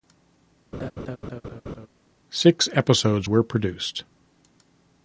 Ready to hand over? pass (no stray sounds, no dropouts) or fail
fail